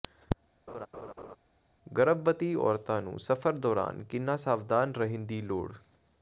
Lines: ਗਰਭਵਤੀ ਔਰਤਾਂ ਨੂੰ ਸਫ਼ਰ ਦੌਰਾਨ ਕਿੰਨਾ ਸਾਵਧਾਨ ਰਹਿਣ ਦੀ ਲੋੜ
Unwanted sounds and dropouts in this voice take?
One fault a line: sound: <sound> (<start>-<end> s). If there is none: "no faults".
sound: laugh (0.7-1.4 s)